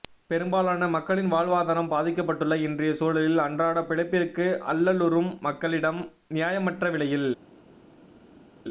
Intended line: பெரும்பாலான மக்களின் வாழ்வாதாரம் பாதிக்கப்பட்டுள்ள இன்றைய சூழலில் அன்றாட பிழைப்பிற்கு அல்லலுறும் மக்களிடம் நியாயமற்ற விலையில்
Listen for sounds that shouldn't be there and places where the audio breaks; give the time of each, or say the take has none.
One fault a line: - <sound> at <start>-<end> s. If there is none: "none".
none